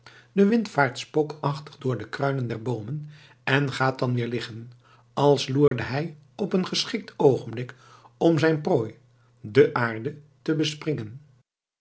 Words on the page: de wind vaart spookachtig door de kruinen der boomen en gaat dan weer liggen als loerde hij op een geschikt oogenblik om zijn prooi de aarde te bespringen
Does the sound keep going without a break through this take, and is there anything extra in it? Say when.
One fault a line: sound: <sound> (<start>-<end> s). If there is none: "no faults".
sound: dropout (5.7-5.7 s)